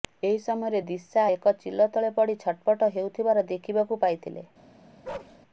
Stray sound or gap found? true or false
true